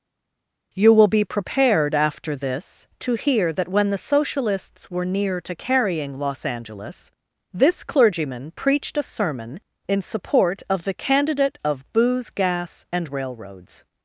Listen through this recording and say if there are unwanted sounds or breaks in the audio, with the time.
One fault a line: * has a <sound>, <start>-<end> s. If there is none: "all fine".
all fine